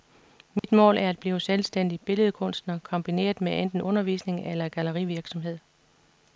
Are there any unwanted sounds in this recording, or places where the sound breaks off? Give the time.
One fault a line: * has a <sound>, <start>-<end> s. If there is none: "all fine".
* has a dropout, 0.6-0.6 s